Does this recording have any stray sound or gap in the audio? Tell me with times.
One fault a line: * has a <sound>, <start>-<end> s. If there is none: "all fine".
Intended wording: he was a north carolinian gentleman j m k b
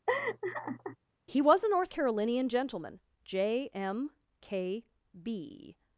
* has a laugh, 0.1-1.0 s